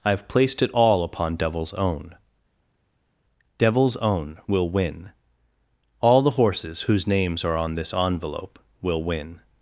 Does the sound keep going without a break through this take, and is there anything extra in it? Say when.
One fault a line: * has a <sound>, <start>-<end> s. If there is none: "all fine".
all fine